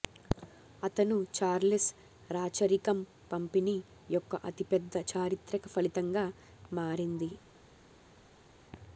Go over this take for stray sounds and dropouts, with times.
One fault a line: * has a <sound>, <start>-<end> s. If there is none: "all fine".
all fine